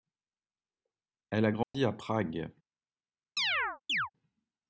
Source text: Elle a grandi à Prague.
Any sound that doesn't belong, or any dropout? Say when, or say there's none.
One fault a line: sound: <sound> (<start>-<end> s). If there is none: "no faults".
sound: dropout (1.6-1.7 s)
sound: chirp (3.4-4.1 s)